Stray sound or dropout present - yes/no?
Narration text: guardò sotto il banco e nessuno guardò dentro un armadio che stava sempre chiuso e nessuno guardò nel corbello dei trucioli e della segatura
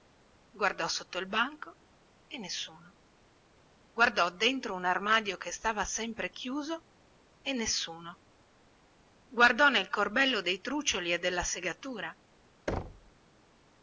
yes